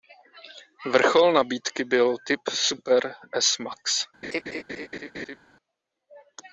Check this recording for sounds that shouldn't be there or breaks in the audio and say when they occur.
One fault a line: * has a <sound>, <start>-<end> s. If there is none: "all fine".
* has a laugh, 4.2-5.4 s